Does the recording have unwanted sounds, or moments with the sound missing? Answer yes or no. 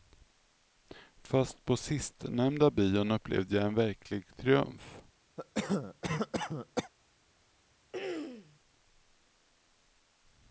yes